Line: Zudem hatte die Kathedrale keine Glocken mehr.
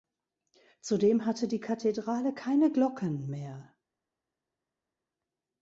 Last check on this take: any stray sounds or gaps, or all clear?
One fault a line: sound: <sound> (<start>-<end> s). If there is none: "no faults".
no faults